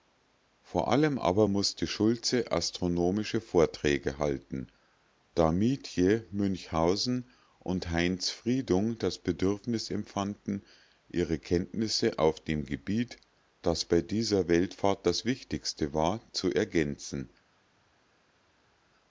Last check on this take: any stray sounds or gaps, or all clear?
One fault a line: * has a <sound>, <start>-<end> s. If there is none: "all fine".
all fine